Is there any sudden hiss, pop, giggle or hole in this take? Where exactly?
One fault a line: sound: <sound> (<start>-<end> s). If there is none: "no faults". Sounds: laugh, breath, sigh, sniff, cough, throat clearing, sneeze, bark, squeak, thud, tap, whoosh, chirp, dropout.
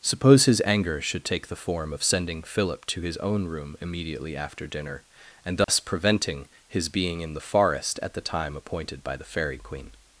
sound: dropout (5.6-5.7 s)